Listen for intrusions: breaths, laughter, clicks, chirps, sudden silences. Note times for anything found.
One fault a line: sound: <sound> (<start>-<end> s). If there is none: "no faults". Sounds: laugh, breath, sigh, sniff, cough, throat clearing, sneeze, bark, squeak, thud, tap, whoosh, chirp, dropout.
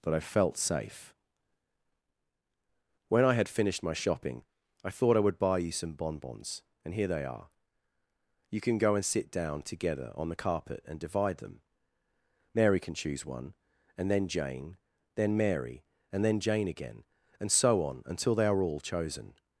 no faults